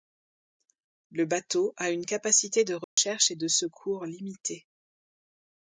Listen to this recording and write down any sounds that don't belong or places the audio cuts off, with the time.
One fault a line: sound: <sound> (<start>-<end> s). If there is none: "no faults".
sound: dropout (2.8-3.0 s)